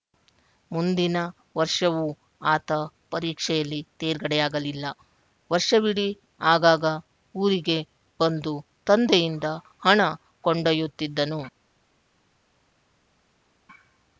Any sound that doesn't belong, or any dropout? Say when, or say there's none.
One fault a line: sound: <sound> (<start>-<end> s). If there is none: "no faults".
no faults